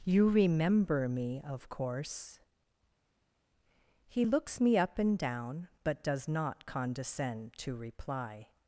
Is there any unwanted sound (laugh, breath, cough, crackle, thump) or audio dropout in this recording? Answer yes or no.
no